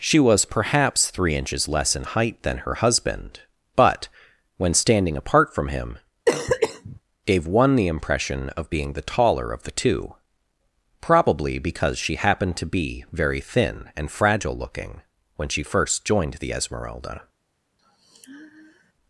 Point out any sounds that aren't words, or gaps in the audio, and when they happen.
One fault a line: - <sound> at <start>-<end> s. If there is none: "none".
- cough at 6.3-7.0 s
- sigh at 17.8-18.9 s